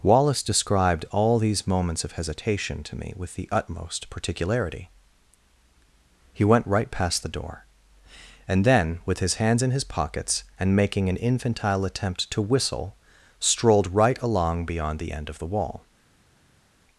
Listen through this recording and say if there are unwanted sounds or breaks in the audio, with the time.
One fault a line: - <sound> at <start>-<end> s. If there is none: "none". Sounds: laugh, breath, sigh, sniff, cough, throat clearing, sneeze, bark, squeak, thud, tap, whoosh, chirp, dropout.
none